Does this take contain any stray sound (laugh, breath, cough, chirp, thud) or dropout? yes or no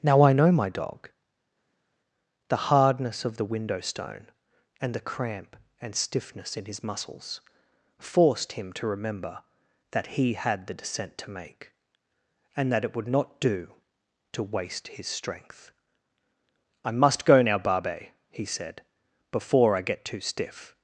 no